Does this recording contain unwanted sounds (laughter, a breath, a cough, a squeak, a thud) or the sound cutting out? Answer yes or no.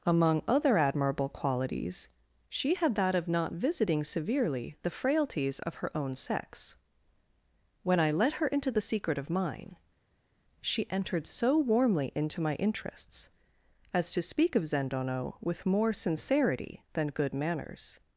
no